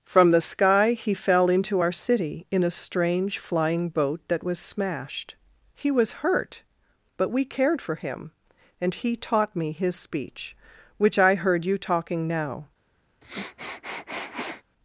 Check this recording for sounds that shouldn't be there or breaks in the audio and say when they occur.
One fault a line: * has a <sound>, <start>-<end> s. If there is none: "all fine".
* has a sniff, 13.2-14.6 s